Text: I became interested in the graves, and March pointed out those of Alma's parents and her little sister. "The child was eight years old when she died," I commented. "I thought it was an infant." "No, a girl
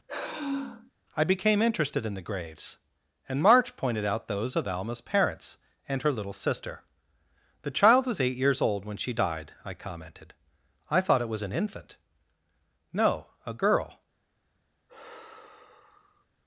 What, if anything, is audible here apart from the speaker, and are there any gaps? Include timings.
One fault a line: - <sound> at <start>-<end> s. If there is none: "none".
- sigh at 0.1-0.9 s
- sigh at 14.9-16.3 s